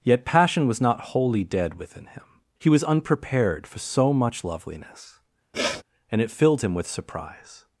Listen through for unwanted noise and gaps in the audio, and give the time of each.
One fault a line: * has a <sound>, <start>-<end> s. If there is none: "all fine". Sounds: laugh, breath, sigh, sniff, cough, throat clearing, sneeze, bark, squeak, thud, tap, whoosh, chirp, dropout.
* has a sniff, 5.5-5.8 s